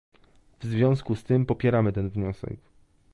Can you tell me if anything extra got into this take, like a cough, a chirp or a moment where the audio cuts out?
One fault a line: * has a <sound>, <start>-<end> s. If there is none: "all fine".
all fine